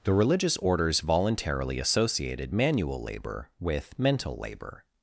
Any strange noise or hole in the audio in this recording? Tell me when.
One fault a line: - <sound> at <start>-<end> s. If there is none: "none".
none